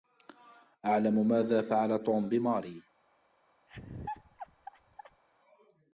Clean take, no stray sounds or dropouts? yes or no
no